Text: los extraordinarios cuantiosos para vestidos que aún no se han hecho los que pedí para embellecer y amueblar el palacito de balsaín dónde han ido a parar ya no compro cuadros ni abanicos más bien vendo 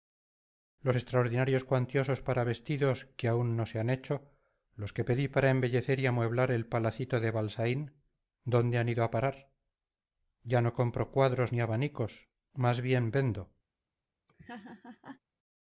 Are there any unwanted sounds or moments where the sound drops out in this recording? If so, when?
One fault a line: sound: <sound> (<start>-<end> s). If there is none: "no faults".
sound: laugh (14.3-15.2 s)